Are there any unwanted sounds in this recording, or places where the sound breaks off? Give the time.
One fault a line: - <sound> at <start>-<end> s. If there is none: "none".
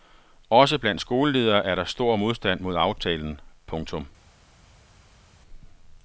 none